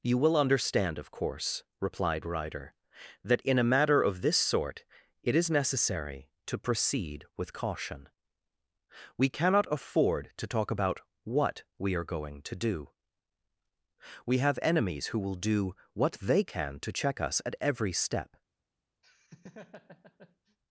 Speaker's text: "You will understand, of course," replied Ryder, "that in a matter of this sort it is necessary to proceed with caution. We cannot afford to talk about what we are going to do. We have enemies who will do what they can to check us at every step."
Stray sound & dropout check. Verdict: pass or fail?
fail